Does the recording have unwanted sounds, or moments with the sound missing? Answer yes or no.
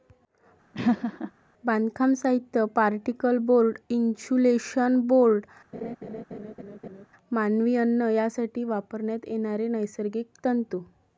yes